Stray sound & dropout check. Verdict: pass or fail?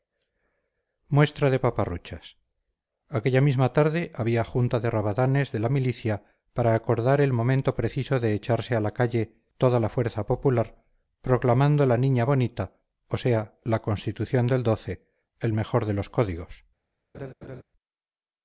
fail